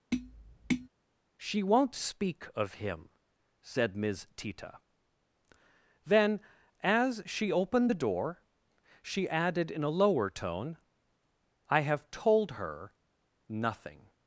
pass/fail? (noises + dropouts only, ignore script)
fail